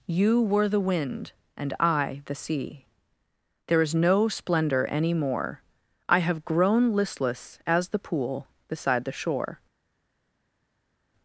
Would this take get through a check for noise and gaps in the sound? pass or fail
pass